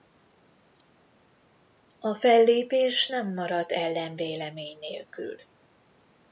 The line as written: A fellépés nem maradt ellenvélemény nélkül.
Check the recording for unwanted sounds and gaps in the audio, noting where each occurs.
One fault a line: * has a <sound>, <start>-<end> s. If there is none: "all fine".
all fine